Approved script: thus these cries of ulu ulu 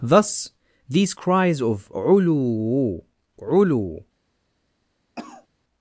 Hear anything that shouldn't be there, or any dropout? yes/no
yes